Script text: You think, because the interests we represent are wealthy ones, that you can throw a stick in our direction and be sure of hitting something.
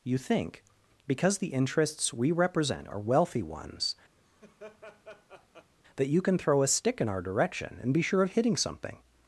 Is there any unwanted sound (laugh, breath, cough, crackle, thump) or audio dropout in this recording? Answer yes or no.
yes